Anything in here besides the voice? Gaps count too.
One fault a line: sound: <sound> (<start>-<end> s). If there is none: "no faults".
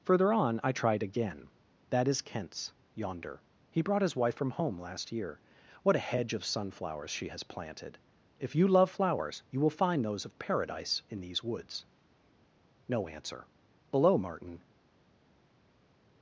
no faults